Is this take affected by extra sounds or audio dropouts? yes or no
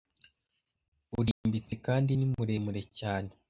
yes